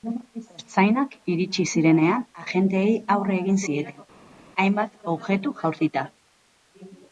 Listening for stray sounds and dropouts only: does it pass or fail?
pass